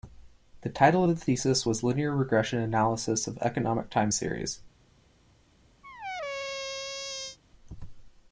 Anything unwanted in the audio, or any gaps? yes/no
yes